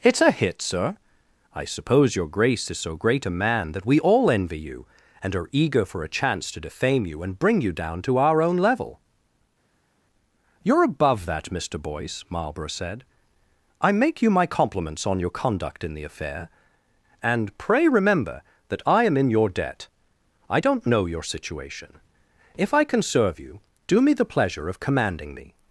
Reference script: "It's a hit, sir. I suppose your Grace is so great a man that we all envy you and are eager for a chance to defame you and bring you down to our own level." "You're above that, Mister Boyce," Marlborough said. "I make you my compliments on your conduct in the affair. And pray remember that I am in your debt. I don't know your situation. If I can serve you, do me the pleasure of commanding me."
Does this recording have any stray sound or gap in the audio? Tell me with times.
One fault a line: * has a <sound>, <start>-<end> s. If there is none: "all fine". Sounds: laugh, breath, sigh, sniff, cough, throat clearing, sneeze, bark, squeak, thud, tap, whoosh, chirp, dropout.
all fine